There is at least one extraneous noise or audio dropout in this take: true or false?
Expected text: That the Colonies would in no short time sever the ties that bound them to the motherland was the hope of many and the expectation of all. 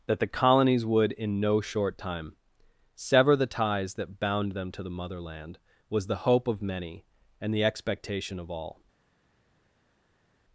false